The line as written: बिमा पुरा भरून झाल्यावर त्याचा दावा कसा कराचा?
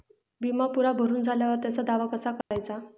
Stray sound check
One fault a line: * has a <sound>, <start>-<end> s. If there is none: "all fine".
* has a dropout, 2.4-2.5 s